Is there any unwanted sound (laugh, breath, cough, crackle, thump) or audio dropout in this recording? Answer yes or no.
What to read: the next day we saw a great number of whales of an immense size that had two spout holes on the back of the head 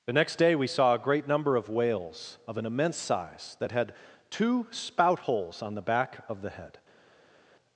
no